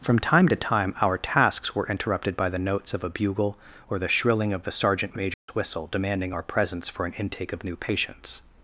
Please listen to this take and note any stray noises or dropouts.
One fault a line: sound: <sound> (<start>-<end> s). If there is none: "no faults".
sound: dropout (5.3-5.5 s)